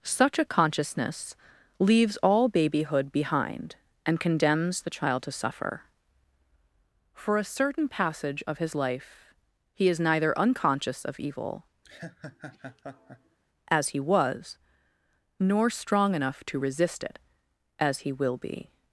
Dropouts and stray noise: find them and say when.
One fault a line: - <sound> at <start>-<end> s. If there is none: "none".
- laugh at 11.8-13.4 s